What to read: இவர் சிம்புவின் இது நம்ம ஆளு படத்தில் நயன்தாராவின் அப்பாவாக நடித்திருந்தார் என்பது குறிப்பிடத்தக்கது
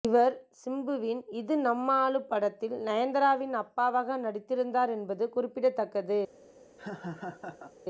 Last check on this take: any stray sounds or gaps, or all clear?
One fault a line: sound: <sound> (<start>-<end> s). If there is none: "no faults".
sound: laugh (6.8-7.7 s)